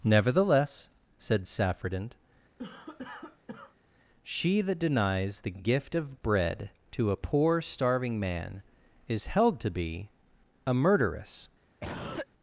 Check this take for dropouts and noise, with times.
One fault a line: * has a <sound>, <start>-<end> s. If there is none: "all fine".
* has a cough, 2.6-3.8 s
* has a cough, 11.8-12.3 s